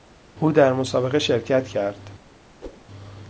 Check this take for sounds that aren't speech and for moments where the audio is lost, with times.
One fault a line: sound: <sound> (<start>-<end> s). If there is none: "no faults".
sound: whoosh (2.6-2.8 s)